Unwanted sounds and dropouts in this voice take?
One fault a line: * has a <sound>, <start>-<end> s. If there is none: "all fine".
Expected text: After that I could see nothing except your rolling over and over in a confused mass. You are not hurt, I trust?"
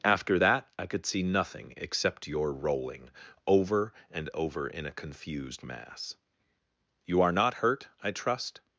all fine